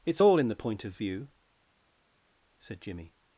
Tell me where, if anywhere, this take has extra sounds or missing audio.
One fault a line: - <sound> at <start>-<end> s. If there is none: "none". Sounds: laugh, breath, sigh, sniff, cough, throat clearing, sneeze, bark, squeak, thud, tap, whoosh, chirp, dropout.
none